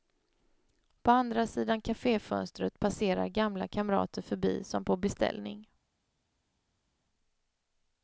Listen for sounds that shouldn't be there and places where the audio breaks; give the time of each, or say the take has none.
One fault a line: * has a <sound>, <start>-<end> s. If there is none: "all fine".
all fine